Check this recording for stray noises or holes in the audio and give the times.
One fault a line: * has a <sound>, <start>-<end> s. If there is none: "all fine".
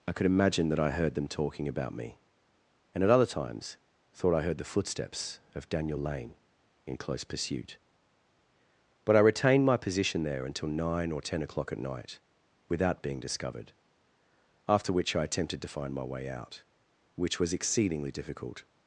all fine